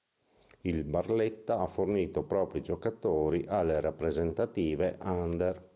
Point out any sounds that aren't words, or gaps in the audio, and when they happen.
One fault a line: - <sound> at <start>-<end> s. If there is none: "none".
none